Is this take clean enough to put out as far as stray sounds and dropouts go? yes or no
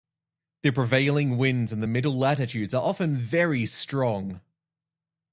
yes